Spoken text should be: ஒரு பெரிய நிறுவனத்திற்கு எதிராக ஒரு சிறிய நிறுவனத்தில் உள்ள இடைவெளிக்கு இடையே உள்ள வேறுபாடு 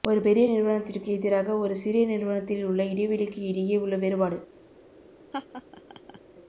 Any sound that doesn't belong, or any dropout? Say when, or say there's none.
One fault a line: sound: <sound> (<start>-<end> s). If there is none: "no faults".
sound: laugh (5.3-6.2 s)